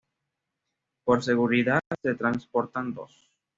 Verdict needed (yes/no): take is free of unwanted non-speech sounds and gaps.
yes